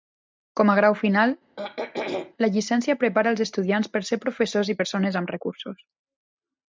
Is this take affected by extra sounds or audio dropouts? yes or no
yes